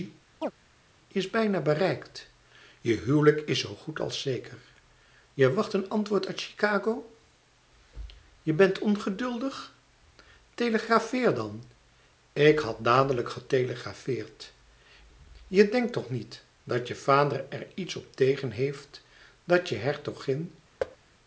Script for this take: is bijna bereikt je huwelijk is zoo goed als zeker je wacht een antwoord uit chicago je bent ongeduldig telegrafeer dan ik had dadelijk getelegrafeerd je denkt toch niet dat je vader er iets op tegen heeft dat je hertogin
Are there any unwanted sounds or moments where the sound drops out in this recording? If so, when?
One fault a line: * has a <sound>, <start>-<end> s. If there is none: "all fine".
* has a chirp, 0.4-0.5 s
* has a thud, 20.8-21.0 s